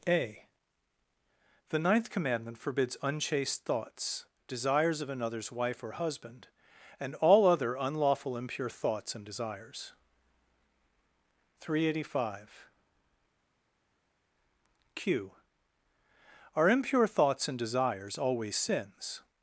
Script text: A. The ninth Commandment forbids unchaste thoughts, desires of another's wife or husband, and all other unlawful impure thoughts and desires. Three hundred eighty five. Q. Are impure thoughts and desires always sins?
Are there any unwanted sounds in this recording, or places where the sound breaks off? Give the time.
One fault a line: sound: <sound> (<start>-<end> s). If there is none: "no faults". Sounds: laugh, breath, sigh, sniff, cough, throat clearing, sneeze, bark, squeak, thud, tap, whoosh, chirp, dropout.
no faults